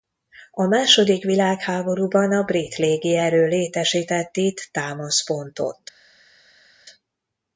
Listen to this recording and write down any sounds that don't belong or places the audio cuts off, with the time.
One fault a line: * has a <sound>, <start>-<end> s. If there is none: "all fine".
all fine